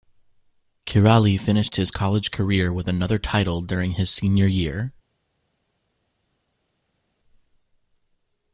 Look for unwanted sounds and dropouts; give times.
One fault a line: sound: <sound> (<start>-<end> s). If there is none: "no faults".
no faults